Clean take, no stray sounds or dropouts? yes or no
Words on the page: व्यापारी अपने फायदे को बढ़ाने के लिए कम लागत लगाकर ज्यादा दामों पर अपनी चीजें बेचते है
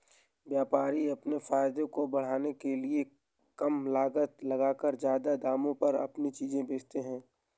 yes